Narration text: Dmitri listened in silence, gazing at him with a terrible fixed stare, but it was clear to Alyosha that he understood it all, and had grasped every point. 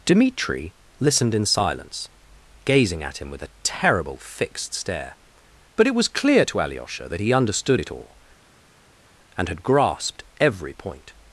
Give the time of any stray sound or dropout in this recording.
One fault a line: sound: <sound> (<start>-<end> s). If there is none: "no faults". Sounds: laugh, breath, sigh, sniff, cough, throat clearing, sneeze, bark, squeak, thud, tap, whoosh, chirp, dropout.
no faults